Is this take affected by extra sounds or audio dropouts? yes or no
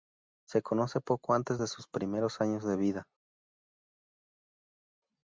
no